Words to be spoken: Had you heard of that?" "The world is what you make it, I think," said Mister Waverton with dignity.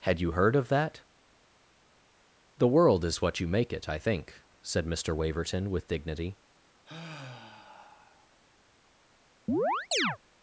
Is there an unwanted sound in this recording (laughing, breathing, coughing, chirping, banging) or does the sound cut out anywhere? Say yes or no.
yes